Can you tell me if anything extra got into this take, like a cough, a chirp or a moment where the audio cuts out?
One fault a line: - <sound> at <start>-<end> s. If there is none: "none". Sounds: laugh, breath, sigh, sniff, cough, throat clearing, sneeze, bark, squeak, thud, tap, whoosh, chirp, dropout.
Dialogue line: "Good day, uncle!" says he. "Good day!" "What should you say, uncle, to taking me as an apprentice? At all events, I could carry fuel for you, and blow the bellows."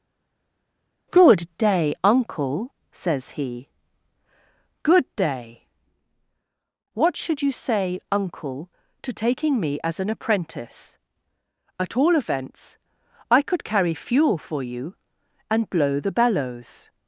none